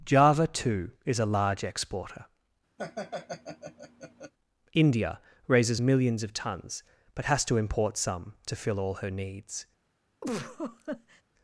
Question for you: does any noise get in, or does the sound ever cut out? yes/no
yes